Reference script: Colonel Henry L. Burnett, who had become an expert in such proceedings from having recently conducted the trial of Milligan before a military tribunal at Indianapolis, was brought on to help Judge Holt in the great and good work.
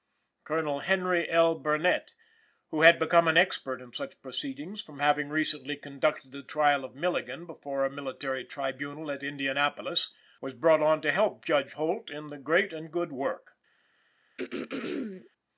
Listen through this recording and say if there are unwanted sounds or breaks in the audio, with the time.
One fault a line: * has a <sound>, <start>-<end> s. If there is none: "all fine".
* has a throat clearing, 14.4-15.3 s